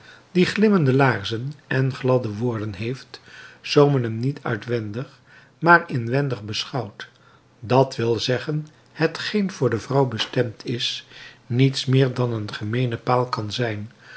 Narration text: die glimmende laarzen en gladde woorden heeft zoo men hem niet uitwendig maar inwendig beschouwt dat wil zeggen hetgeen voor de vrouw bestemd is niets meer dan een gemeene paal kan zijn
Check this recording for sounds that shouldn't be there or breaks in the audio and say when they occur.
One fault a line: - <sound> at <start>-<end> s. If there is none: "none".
none